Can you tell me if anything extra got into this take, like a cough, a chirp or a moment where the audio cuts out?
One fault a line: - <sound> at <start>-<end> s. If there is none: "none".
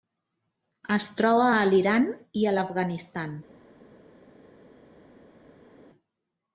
none